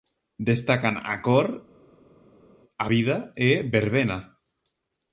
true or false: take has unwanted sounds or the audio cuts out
false